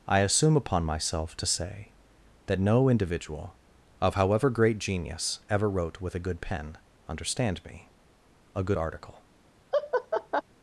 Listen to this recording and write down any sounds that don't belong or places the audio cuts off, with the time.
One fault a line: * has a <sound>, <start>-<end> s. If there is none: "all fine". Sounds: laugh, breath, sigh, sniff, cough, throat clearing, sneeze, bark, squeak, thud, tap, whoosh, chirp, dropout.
* has a laugh, 9.7-10.4 s